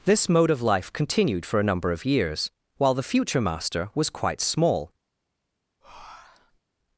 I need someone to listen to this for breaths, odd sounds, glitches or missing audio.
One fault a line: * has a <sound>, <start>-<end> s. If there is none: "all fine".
* has a breath, 5.8-6.6 s